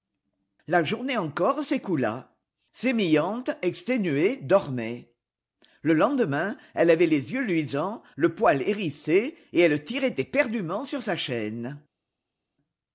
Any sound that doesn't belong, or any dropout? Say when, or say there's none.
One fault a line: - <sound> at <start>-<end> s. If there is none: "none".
none